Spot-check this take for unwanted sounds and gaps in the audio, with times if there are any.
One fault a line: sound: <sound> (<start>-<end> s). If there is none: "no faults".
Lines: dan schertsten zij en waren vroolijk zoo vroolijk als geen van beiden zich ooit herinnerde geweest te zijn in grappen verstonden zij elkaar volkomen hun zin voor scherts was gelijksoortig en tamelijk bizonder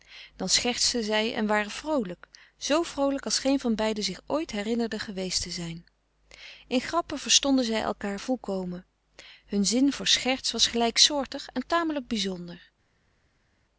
no faults